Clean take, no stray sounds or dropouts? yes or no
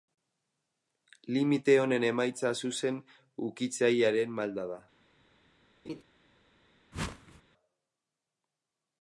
no